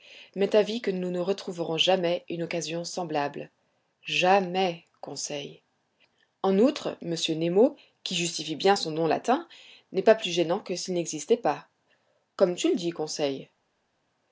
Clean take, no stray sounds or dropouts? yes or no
yes